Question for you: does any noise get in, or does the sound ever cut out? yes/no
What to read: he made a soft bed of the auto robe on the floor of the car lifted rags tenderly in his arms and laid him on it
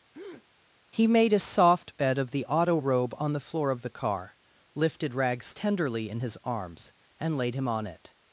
yes